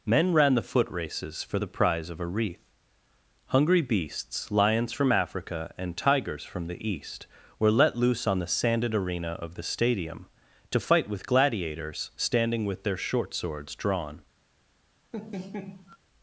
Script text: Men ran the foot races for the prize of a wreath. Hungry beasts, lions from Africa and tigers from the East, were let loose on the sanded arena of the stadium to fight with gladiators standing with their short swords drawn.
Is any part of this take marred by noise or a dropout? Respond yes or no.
yes